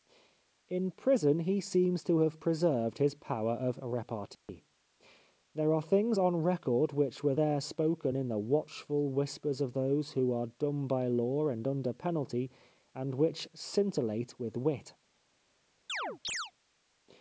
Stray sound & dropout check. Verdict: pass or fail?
fail